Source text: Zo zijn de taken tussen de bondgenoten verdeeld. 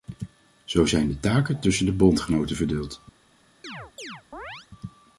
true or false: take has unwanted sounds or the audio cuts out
true